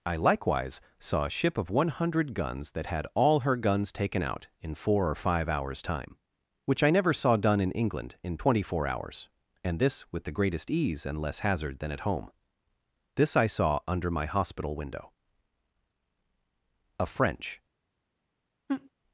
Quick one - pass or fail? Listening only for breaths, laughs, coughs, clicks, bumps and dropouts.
fail